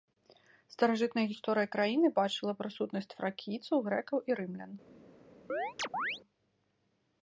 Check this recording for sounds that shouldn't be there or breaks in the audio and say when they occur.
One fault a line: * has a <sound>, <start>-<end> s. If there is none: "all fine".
* has a chirp, 5.5-6.2 s